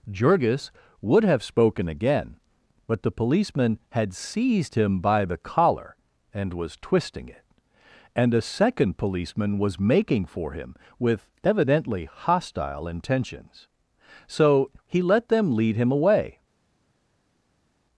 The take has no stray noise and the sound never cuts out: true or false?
true